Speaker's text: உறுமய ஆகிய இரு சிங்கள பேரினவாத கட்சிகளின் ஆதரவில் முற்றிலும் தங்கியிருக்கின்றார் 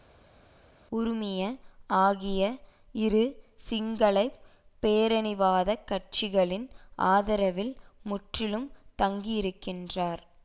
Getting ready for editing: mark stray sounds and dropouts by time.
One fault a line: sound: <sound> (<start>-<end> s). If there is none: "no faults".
no faults